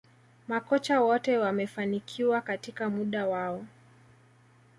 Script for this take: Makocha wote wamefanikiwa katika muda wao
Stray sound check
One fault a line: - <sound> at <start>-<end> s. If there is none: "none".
none